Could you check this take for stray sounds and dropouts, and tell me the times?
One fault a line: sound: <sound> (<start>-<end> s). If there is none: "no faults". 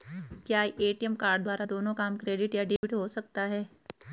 sound: dropout (2.8-2.8 s)